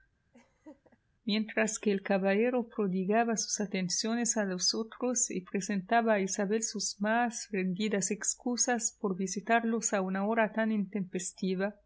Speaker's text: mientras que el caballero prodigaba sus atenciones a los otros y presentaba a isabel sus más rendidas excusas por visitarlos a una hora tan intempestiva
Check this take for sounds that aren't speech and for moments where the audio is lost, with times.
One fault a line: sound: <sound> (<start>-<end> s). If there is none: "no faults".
sound: laugh (0.3-1.0 s)